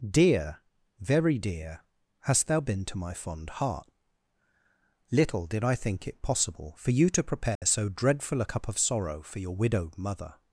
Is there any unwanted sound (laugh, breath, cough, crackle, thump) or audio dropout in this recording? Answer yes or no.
yes